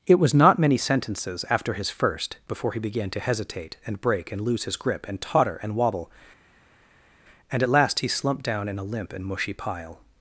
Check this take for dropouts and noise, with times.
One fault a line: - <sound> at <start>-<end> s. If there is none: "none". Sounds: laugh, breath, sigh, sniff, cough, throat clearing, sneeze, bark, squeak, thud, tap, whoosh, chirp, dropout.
none